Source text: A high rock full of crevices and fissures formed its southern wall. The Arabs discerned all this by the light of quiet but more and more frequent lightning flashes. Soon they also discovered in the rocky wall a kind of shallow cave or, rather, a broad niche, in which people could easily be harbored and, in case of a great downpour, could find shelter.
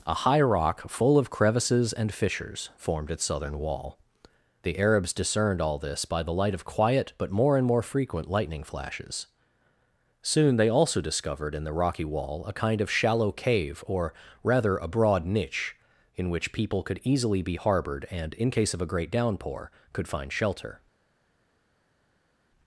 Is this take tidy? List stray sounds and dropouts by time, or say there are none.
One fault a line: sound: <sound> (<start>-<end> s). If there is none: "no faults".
no faults